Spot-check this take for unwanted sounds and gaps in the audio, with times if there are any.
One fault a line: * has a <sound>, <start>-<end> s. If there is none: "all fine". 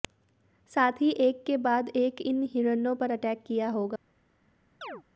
* has a chirp, 4.8-5.0 s